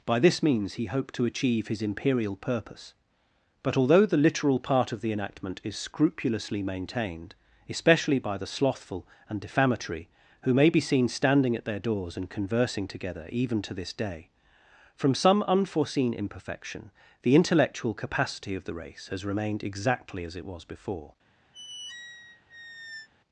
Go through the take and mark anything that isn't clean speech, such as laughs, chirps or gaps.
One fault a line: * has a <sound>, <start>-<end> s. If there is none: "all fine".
* has a squeak, 21.5-23.1 s